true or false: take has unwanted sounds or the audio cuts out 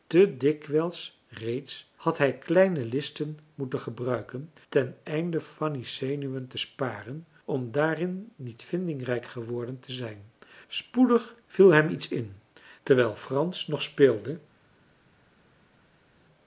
false